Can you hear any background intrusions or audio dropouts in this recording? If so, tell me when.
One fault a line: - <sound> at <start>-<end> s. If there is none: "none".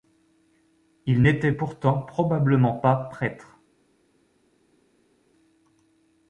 none